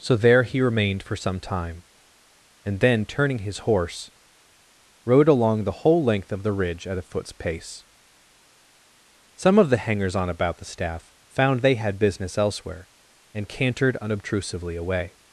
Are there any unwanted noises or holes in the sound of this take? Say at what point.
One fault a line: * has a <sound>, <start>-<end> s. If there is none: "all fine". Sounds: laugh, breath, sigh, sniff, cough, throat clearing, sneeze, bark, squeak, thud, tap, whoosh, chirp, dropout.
all fine